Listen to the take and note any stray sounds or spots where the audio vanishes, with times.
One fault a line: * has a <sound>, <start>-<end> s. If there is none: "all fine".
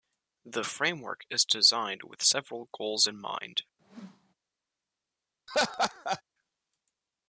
* has a whoosh, 3.8-4.3 s
* has a laugh, 5.5-6.2 s